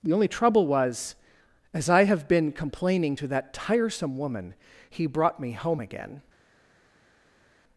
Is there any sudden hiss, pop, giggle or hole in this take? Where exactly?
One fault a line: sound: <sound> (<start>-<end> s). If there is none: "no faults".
no faults